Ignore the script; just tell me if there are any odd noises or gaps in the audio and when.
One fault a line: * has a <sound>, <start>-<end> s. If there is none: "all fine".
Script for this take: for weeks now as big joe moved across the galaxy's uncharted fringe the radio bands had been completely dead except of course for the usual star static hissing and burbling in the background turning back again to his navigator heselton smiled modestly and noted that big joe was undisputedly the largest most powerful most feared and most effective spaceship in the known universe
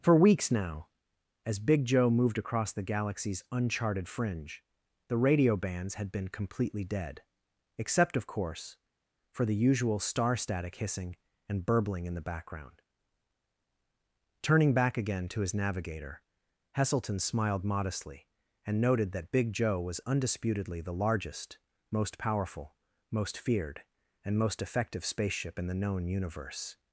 all fine